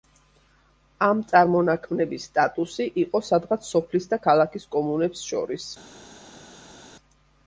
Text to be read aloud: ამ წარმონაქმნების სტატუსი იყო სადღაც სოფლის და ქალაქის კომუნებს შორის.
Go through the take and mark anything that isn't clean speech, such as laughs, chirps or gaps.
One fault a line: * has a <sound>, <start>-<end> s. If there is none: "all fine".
all fine